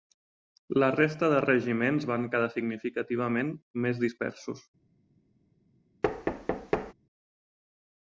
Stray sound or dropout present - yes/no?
yes